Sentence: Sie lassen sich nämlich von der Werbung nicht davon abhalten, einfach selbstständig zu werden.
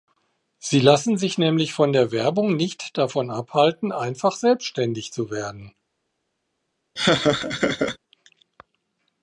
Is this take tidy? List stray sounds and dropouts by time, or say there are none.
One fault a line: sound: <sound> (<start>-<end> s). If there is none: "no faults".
sound: laugh (7.0-8.0 s)